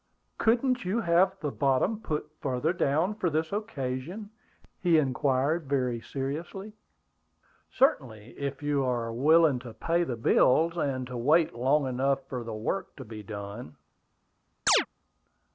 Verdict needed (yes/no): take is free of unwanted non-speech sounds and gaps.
no